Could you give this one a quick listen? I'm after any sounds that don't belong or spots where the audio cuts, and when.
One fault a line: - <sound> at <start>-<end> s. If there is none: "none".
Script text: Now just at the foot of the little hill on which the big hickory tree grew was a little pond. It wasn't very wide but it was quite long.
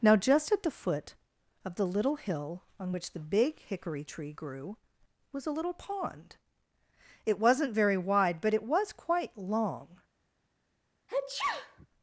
- sneeze at 11.1-11.9 s